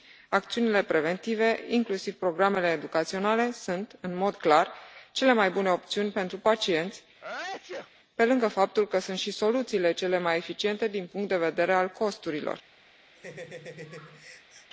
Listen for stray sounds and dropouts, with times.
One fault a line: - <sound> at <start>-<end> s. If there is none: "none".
- sneeze at 7.2-7.9 s
- laugh at 13.1-14.7 s